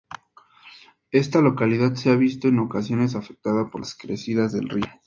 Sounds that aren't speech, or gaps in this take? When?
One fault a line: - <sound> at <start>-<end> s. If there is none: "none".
none